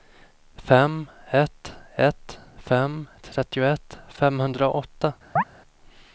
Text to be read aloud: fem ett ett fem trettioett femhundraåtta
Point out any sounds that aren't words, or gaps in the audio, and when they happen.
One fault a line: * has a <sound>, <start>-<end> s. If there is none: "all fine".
* has a chirp, 5.4-5.4 s